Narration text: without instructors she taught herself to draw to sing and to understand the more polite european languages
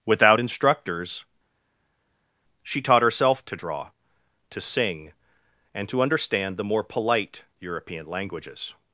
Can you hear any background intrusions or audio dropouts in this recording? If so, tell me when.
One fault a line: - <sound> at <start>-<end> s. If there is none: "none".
none